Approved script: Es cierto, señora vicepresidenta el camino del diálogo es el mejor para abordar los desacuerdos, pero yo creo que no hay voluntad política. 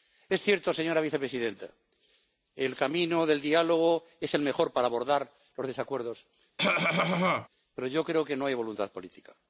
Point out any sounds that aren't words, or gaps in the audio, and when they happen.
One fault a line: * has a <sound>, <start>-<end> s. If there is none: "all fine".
* has a cough, 6.6-7.5 s